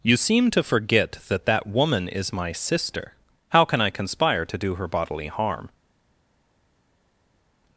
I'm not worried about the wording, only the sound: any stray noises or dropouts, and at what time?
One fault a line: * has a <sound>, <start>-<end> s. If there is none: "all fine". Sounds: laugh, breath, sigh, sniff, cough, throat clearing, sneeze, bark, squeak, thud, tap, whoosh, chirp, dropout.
all fine